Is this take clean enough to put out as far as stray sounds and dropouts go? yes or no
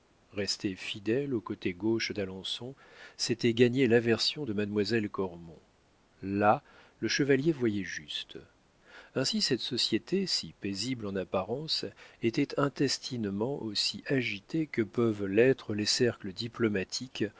yes